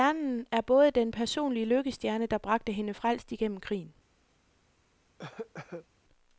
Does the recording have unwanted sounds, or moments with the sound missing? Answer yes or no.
yes